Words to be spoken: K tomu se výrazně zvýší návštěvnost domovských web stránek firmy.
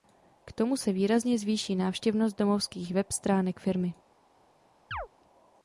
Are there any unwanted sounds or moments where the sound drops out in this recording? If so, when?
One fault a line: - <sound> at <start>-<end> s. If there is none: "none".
- chirp at 4.9-5.1 s